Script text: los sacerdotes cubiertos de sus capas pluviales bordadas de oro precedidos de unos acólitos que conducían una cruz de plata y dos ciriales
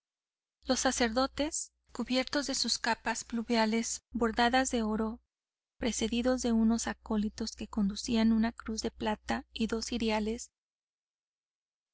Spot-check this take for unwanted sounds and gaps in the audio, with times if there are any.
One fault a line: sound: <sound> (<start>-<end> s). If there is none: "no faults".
no faults